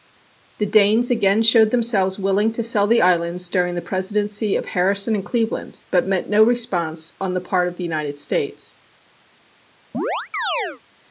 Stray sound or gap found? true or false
true